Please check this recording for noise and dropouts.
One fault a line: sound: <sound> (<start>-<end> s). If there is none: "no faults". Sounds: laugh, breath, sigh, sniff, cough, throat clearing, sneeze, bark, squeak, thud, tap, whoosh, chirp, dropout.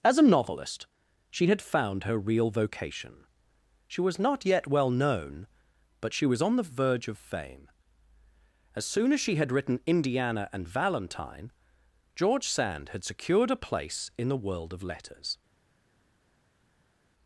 no faults